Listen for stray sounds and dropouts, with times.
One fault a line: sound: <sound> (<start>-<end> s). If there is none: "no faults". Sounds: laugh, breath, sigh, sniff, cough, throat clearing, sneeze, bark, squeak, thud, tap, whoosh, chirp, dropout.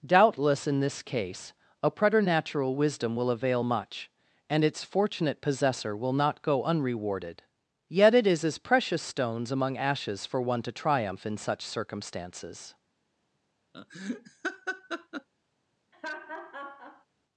sound: laugh (13.7-15.3 s)
sound: laugh (15.9-17.1 s)